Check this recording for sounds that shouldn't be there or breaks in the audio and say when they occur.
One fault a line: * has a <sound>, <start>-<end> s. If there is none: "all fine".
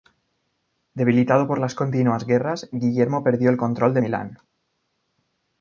all fine